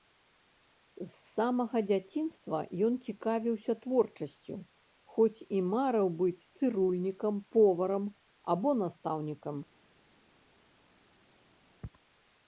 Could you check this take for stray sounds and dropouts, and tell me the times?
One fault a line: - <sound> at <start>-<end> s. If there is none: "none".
none